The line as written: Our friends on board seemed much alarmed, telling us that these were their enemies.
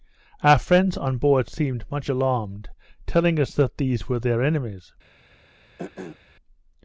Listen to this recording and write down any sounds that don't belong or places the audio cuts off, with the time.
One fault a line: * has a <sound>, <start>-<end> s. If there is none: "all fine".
* has a throat clearing, 5.8-6.2 s